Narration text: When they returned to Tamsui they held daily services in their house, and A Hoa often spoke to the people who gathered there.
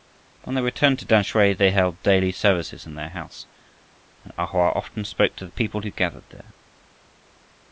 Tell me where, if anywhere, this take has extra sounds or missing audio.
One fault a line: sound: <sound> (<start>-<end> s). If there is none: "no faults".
no faults